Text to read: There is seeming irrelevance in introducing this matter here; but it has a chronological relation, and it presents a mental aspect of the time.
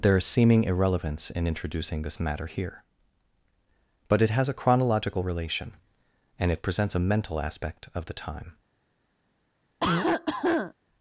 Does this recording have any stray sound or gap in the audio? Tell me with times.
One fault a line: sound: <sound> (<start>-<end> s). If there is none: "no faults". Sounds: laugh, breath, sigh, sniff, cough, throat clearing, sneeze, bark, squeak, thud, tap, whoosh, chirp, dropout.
sound: cough (9.8-10.7 s)